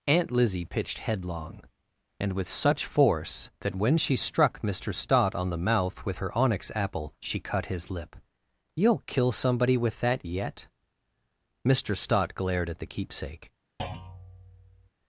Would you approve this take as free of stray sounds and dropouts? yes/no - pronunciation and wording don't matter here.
no